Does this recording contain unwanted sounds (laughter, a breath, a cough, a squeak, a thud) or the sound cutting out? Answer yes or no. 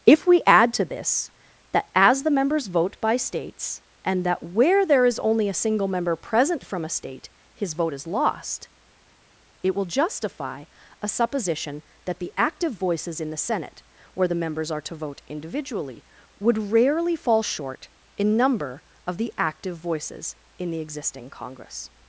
no